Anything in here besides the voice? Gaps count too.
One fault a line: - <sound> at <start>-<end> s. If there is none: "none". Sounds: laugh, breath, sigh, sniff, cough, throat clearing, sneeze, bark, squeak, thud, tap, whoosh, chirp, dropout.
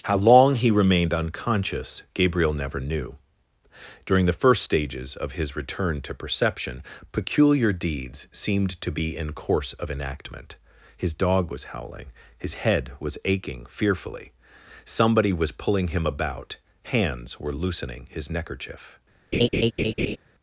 - laugh at 19.3-20.2 s